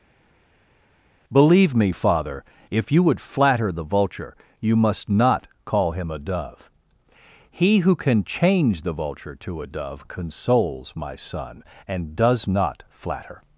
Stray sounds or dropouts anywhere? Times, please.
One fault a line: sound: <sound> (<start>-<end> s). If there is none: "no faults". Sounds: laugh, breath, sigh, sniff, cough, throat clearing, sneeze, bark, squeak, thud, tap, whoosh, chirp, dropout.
no faults